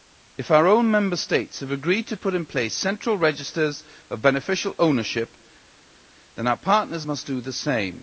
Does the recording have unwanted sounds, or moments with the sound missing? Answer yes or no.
no